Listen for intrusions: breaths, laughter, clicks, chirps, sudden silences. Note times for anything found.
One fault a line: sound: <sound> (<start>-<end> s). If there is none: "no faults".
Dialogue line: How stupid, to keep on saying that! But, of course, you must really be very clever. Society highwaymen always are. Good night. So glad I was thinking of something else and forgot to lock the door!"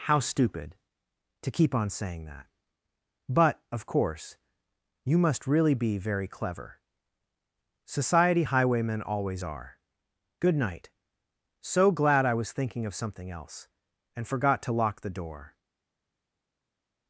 no faults